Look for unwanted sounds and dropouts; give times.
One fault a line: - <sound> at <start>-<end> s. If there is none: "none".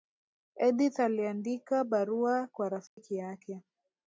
- dropout at 2.9-3.0 s